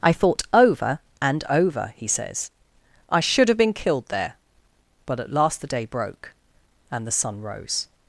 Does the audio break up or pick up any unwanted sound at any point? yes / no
no